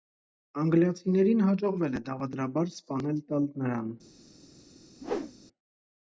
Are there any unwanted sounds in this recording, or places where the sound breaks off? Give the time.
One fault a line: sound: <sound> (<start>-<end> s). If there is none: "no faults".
sound: whoosh (5.0-5.3 s)